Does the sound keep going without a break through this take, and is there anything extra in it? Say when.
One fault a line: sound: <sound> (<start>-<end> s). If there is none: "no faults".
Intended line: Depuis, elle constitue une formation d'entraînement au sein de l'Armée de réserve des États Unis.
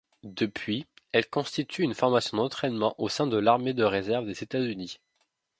no faults